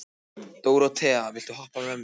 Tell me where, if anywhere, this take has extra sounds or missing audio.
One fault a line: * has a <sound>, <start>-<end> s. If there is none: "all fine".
all fine